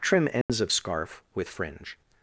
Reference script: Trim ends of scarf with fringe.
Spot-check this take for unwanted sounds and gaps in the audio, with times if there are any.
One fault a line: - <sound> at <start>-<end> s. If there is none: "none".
- dropout at 0.4-0.5 s